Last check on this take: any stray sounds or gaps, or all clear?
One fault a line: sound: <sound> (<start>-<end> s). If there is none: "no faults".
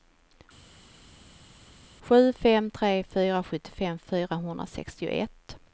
no faults